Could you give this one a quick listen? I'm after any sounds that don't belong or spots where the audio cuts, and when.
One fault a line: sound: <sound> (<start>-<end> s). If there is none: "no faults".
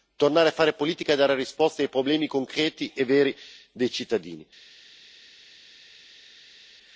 no faults